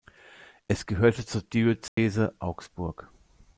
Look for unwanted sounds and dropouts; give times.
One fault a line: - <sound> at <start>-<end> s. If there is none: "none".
- dropout at 1.9-2.0 s